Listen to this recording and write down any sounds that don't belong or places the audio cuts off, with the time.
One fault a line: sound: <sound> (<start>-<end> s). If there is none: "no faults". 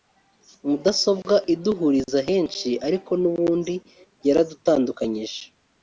no faults